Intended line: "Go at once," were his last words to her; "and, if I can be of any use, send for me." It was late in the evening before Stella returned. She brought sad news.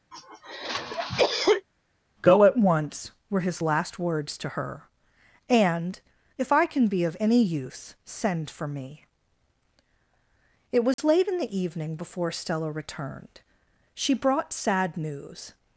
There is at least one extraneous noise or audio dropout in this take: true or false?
true